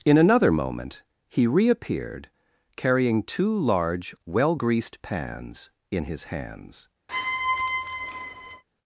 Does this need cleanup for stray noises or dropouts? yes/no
yes